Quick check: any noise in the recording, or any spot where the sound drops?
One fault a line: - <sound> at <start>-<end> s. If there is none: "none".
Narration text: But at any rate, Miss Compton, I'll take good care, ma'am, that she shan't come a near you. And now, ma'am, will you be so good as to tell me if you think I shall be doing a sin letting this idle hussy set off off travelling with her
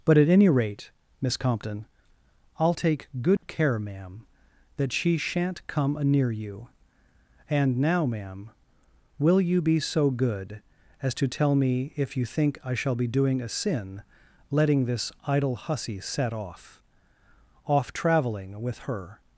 - dropout at 3.4-3.4 s